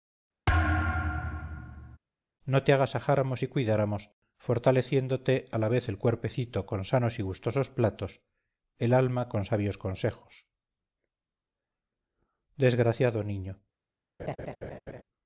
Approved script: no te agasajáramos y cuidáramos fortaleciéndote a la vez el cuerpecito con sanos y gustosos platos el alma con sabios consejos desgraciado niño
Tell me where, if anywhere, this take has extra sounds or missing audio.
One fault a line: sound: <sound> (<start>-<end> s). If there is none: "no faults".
sound: thud (0.5-2.0 s)
sound: laugh (14.2-15.0 s)